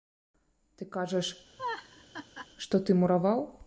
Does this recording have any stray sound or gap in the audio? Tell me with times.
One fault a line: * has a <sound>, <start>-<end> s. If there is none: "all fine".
* has a laugh, 1.6-2.5 s